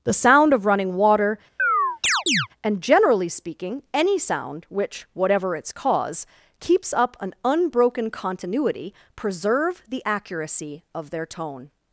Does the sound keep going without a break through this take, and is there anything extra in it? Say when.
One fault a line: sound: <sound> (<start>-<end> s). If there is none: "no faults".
sound: chirp (1.6-2.5 s)